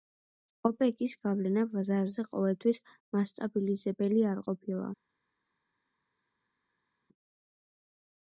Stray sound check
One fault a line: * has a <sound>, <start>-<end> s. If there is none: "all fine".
all fine